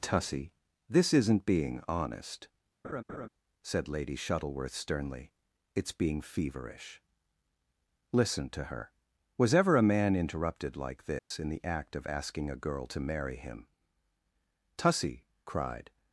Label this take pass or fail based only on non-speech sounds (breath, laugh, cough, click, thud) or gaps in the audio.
fail